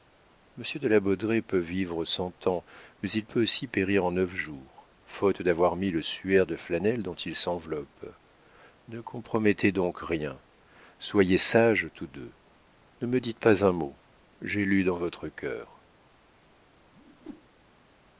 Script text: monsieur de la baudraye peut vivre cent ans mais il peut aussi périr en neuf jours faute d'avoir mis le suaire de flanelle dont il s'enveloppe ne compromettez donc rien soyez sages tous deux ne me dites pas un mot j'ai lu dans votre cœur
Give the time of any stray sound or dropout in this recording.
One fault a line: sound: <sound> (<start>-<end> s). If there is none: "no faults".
sound: whoosh (16.9-17.5 s)